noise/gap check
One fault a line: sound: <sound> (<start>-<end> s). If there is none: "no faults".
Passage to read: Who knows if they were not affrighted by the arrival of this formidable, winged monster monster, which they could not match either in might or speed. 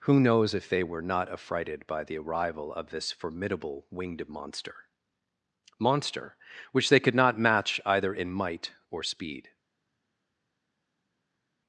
no faults